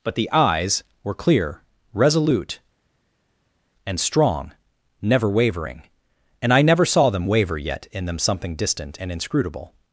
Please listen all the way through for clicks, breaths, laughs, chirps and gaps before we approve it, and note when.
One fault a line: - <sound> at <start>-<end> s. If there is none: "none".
none